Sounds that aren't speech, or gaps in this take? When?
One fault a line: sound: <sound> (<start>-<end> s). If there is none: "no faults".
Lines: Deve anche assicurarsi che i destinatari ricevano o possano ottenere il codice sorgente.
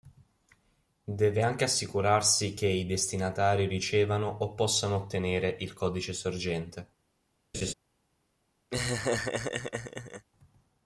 sound: laugh (7.5-7.7 s)
sound: laugh (8.7-10.3 s)